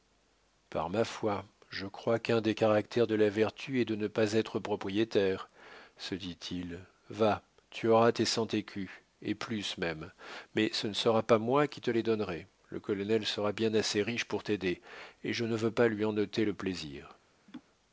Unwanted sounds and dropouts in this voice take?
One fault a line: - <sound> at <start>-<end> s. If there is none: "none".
- laugh at 17.5-17.6 s